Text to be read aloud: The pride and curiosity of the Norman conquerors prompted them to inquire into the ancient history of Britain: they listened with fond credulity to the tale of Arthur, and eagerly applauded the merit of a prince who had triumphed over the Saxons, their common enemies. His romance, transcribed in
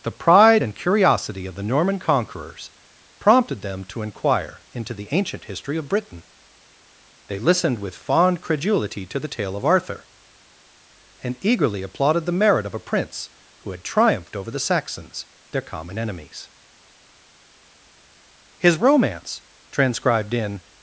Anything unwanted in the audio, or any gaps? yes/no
no